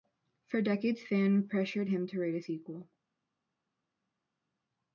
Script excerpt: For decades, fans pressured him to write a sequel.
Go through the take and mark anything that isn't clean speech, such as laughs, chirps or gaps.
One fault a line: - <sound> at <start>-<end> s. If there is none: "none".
none